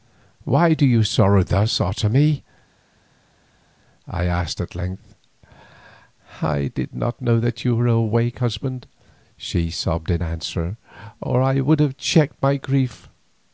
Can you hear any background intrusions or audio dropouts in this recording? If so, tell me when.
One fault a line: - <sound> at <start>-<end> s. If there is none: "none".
none